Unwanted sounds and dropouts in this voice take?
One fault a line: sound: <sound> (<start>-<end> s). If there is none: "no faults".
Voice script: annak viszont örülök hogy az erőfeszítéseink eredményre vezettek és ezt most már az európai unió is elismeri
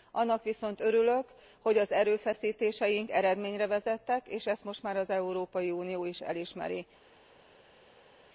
no faults